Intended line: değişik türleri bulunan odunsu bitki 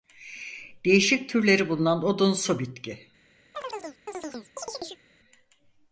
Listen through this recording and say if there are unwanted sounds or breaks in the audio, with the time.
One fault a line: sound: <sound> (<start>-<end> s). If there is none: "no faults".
sound: chirp (3.5-5.0 s)